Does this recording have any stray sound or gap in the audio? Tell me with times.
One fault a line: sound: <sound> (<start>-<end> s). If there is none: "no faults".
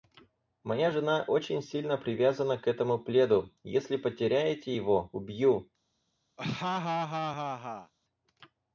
sound: laugh (6.4-7.9 s)